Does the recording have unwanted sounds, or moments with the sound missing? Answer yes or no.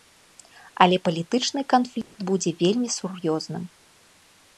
yes